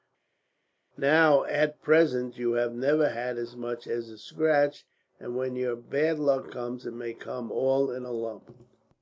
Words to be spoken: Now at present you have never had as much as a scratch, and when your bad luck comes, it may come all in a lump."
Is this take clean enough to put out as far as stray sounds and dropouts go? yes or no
yes